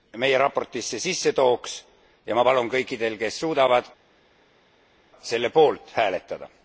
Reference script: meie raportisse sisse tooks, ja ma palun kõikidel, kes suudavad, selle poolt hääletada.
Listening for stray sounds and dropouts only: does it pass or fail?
pass